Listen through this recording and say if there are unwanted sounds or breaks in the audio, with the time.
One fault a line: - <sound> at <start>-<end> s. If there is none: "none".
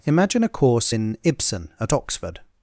none